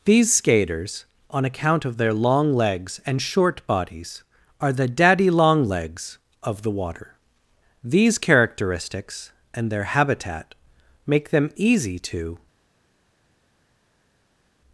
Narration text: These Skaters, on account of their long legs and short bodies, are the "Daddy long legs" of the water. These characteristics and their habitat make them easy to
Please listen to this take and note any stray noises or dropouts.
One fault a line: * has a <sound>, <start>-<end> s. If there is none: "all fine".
all fine